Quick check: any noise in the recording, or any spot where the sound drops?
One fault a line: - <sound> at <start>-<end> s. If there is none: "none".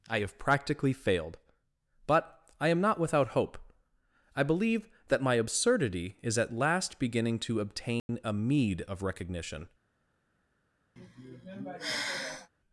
- dropout at 8.0-8.1 s
- sigh at 11.0-12.5 s